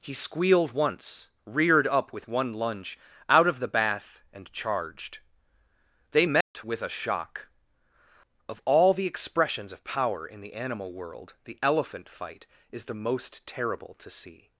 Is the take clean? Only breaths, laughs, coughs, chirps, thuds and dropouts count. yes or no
no